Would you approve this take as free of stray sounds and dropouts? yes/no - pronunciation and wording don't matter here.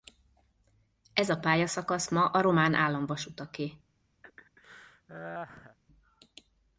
no